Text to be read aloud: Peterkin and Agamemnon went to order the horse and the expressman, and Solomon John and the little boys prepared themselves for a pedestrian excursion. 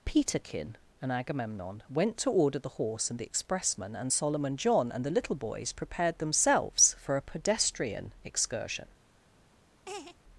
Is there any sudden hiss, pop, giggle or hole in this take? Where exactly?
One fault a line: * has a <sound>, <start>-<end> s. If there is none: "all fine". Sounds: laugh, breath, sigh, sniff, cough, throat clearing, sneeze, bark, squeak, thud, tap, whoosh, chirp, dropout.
* has a laugh, 9.9-10.2 s